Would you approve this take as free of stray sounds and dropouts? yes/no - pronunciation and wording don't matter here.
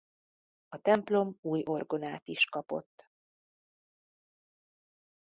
yes